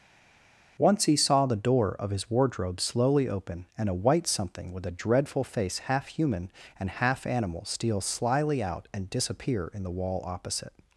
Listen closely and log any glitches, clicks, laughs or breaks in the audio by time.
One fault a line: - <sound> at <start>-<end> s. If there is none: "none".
none